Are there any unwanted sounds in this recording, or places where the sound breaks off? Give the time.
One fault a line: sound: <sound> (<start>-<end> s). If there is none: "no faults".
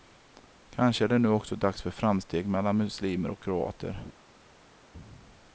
no faults